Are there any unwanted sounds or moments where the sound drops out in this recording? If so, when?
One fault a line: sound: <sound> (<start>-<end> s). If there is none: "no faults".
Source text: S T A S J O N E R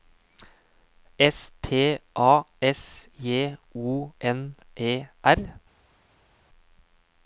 no faults